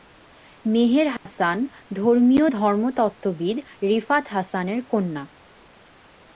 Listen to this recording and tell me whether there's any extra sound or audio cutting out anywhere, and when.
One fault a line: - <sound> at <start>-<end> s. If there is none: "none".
- dropout at 1.2-1.3 s